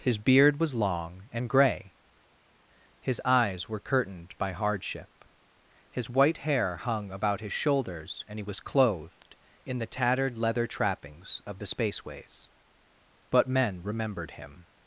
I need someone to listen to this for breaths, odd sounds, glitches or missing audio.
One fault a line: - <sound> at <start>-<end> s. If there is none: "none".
none